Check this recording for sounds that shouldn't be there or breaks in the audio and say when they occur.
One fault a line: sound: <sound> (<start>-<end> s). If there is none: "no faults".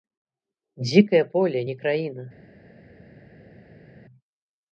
no faults